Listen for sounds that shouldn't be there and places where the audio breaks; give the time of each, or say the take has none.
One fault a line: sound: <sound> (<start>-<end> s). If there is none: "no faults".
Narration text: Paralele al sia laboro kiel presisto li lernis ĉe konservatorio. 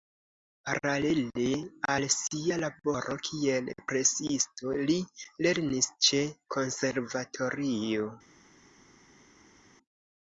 no faults